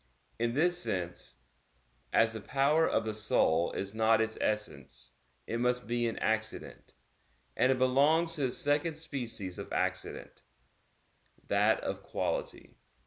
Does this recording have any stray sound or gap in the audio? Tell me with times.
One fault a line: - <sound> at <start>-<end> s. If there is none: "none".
none